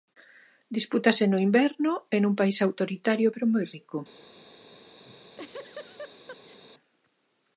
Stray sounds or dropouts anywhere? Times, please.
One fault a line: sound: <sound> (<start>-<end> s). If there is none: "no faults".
sound: laugh (5.1-6.6 s)